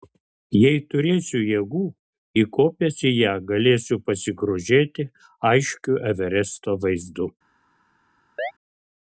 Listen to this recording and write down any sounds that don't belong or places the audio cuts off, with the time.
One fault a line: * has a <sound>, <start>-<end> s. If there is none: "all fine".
* has a chirp, 8.4-8.5 s